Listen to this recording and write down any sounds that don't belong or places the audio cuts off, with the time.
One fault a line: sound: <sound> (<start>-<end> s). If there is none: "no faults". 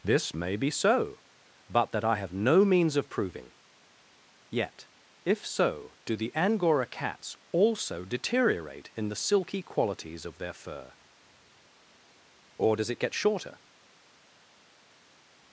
no faults